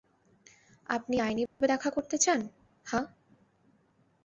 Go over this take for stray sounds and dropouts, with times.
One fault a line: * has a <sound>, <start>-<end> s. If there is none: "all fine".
* has a dropout, 1.5-1.6 s